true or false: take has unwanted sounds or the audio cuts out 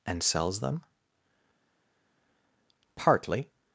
false